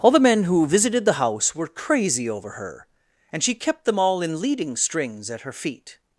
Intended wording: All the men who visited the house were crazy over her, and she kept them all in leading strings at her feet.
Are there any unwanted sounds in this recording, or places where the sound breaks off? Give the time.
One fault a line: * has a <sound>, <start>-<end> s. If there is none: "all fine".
all fine